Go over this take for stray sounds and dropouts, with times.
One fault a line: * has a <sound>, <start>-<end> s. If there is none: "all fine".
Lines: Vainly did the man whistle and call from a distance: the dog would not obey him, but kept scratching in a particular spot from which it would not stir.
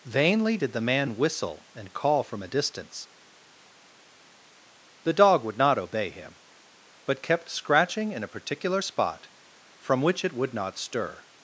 all fine